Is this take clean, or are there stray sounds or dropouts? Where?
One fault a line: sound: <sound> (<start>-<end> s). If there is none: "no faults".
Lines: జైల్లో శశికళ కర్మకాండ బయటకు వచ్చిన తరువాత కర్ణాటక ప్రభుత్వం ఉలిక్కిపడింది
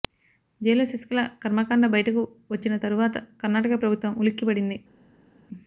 no faults